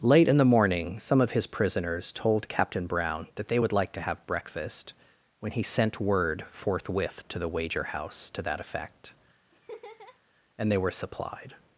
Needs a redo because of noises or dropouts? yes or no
yes